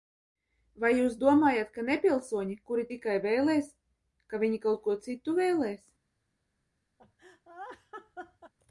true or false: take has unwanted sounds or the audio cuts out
true